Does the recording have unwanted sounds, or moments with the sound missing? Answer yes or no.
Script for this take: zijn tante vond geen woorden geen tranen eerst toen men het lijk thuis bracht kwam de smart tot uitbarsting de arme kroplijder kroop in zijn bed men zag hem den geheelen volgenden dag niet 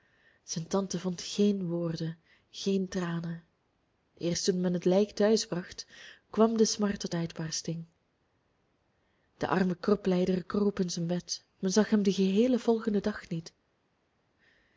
no